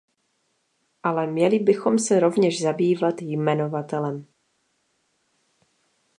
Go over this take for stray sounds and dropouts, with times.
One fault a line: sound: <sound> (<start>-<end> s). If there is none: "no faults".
no faults